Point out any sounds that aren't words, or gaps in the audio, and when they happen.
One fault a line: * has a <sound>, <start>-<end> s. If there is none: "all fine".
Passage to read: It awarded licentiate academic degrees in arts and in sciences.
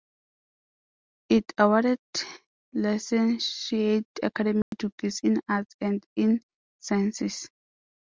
* has a dropout, 4.6-4.7 s